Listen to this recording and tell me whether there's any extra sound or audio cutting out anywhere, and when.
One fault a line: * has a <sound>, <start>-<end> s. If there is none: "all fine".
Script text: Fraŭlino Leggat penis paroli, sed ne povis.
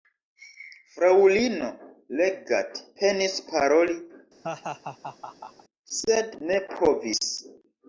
* has a laugh, 4.4-5.6 s